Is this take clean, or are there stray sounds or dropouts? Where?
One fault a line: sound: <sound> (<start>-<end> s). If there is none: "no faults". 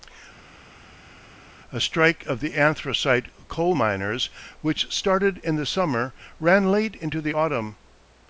no faults